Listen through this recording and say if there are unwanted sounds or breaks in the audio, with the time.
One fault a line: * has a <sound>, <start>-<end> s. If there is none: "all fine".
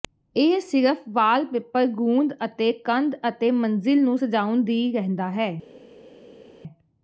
all fine